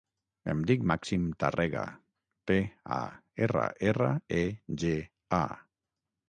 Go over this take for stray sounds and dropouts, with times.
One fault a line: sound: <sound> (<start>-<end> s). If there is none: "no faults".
no faults